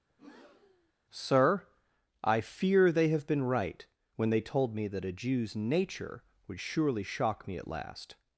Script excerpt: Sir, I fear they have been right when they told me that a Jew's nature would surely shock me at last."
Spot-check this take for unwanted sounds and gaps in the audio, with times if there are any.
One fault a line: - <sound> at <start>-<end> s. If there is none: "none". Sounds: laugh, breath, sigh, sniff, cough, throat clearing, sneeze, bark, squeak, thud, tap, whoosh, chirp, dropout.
- breath at 0.1-0.9 s